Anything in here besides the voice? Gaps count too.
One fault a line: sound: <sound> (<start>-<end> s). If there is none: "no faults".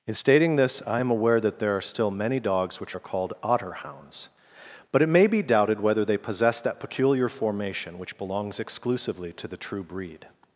no faults